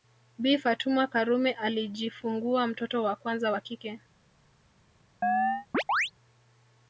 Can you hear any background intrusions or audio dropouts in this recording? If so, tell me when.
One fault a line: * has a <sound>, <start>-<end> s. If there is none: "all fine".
* has a chirp, 5.2-6.1 s